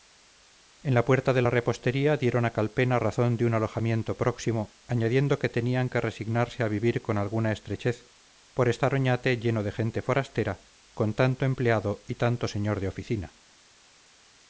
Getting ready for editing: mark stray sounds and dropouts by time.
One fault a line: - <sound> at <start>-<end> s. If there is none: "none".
none